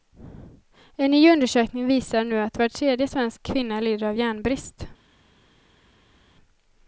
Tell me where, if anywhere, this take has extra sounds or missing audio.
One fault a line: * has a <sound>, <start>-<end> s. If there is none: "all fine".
all fine